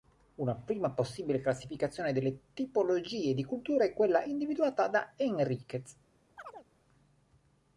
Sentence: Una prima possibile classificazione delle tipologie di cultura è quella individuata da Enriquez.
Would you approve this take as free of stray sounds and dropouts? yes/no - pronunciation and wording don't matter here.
no